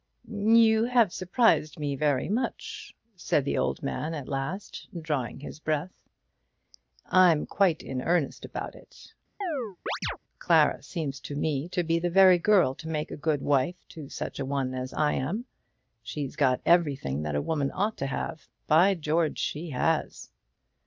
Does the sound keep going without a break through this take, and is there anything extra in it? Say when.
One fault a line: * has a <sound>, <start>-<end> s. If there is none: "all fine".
* has a chirp, 9.4-10.2 s